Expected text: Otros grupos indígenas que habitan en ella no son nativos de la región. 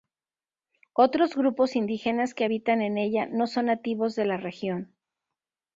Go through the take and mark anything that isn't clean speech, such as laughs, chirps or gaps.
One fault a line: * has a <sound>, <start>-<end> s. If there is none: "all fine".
all fine